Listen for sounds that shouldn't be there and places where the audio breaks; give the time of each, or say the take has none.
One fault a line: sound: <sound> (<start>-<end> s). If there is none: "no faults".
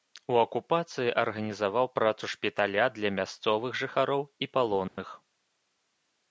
sound: dropout (4.9-5.0 s)